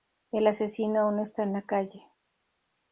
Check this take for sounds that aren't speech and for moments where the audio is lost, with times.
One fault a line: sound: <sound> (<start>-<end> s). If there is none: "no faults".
no faults